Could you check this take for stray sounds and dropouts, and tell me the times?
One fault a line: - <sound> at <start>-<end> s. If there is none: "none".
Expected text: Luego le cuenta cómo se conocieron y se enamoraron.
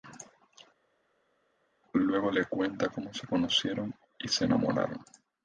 none